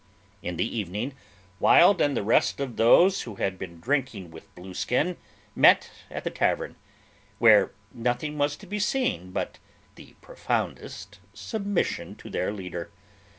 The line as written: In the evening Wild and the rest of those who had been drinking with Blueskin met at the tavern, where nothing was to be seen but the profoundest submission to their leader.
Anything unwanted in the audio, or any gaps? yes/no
no